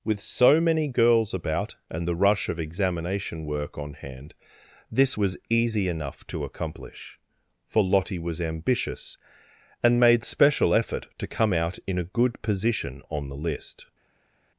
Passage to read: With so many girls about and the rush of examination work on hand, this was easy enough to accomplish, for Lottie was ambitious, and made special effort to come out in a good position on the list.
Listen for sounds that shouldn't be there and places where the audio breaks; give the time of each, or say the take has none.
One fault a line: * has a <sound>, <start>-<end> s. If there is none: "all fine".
all fine